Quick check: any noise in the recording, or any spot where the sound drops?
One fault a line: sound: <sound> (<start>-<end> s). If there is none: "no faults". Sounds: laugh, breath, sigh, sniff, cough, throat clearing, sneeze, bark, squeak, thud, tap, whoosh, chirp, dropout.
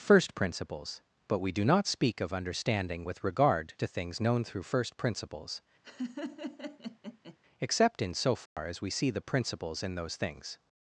sound: laugh (5.8-7.4 s)
sound: dropout (8.5-8.6 s)